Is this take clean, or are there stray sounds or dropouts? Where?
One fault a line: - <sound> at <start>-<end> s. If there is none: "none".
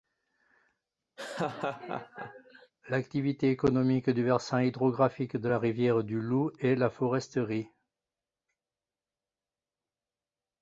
- laugh at 1.2-2.7 s